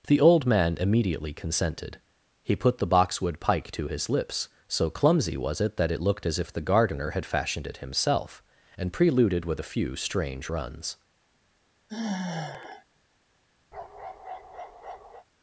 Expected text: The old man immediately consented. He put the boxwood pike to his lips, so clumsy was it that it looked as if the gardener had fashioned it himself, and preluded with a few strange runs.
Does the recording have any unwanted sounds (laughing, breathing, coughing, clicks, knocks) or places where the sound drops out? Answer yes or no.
yes